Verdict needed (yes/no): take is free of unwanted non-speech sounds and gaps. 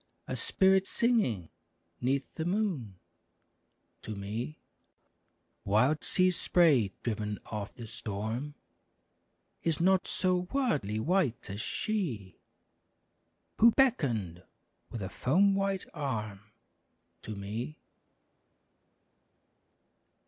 yes